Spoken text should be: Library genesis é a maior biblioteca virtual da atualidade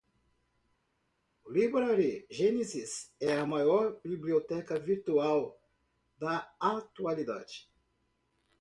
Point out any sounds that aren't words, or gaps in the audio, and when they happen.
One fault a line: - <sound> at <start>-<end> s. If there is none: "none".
none